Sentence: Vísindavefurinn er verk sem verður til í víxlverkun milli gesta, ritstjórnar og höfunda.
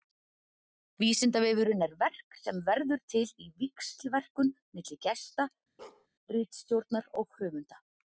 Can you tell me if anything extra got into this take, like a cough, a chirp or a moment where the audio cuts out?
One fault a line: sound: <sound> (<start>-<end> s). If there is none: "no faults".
sound: bark (5.8-6.1 s)